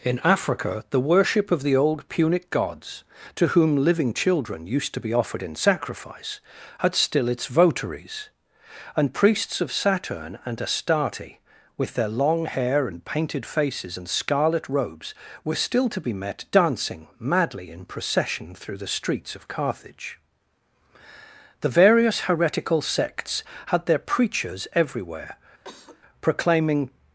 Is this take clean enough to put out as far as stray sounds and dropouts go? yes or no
no